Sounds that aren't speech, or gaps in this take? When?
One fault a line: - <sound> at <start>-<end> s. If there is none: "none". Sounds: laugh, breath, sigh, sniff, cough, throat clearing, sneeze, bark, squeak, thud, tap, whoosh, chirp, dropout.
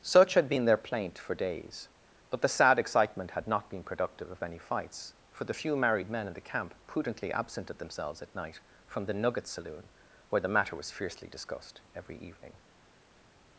none